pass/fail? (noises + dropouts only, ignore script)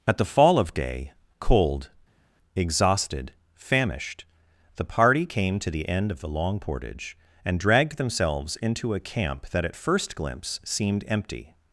pass